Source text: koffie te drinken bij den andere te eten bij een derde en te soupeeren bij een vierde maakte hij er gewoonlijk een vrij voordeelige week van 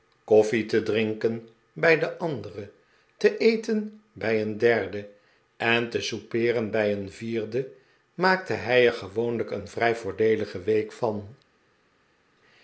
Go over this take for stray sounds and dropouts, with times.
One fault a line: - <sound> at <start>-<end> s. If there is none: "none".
none